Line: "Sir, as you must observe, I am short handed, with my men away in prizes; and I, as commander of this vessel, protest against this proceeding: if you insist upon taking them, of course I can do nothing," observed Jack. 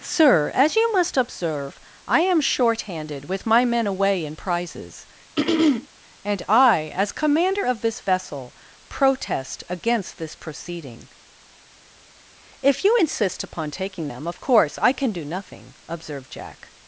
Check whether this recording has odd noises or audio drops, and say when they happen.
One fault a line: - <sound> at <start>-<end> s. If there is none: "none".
- throat clearing at 5.4-5.9 s